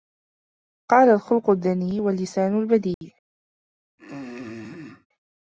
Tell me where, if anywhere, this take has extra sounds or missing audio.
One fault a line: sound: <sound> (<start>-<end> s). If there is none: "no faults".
sound: dropout (2.9-3.0 s)
sound: throat clearing (4.0-5.1 s)